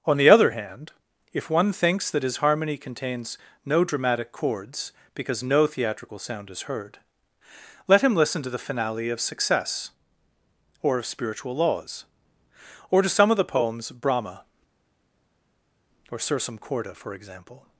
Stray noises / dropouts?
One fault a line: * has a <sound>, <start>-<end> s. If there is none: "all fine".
all fine